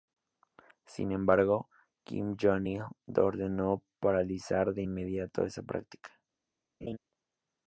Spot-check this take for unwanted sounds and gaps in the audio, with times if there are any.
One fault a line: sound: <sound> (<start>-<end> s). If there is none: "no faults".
sound: laugh (6.8-7.0 s)